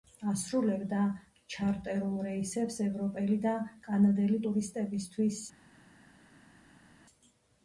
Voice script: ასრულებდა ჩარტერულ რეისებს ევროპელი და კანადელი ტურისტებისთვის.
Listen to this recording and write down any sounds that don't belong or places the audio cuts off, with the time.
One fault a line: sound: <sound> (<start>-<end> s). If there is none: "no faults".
no faults